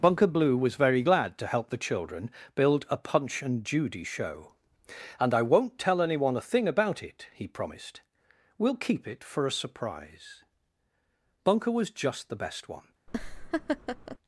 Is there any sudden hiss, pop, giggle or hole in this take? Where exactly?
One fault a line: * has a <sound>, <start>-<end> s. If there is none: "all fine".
* has a laugh, 13.1-14.2 s